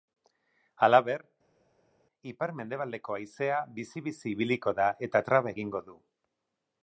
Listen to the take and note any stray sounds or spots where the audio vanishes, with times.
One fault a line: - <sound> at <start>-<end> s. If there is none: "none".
none